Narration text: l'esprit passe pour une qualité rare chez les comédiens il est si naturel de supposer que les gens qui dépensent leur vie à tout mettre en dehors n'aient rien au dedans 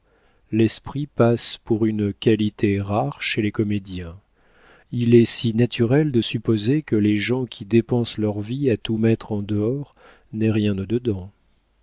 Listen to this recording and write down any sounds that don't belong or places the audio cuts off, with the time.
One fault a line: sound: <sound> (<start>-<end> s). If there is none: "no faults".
no faults